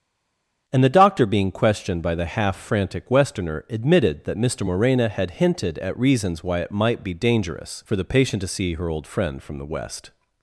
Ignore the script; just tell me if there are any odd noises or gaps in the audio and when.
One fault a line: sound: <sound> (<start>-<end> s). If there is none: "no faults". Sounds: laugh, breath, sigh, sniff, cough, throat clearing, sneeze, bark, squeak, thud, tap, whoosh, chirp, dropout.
no faults